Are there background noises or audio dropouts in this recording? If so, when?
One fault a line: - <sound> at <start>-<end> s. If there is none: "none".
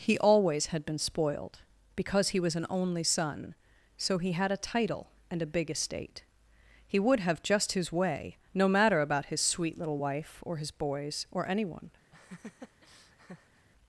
- laugh at 12.1-13.7 s